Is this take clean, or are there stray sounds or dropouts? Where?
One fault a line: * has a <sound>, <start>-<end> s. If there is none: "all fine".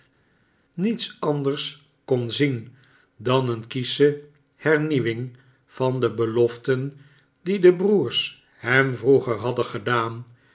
all fine